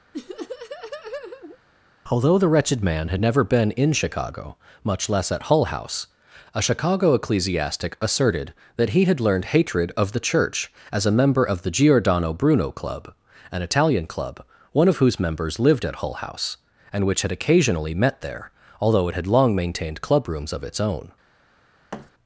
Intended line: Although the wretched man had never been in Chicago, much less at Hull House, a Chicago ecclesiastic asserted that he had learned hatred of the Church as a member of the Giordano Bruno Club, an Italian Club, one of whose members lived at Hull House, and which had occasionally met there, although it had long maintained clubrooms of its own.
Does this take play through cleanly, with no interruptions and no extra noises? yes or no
no